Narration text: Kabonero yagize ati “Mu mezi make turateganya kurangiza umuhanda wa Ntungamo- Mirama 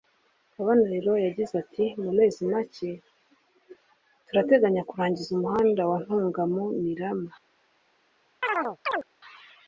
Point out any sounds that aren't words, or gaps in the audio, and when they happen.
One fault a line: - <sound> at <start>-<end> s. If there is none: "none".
- chirp at 8.4-9.1 s